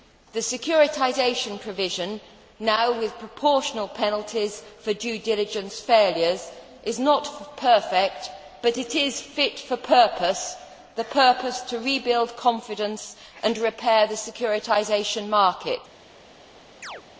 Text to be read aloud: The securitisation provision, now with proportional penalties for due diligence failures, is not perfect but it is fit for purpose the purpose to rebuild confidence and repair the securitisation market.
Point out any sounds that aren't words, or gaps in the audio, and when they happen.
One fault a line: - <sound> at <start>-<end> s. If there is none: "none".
- chirp at 16.8-17.0 s